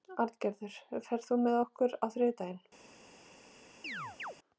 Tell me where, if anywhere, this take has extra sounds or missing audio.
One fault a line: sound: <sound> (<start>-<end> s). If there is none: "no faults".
sound: chirp (3.8-4.4 s)